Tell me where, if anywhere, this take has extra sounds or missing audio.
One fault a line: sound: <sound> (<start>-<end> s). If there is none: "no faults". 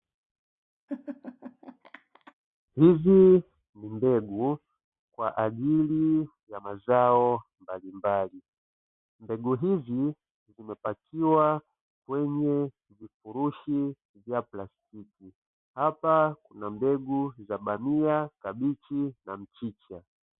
sound: laugh (0.9-2.3 s)